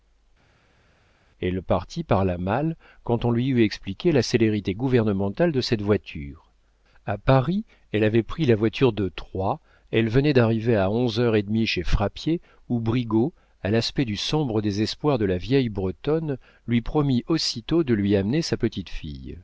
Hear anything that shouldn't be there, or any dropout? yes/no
no